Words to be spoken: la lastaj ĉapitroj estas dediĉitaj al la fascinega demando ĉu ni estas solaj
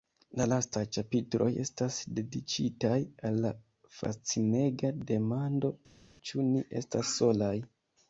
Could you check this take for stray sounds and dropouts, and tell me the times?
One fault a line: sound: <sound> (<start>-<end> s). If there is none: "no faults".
no faults